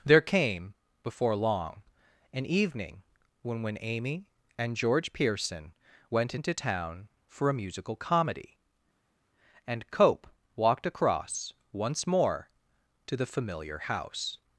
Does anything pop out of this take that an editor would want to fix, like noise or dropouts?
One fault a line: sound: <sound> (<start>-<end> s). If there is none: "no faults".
no faults